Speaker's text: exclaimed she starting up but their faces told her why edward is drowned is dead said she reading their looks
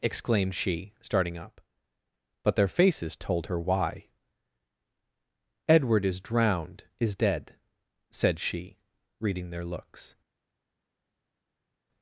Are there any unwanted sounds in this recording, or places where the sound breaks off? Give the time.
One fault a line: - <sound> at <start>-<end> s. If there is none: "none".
none